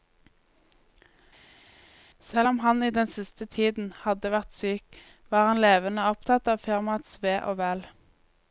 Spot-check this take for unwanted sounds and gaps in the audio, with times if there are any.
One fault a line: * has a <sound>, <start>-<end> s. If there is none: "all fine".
all fine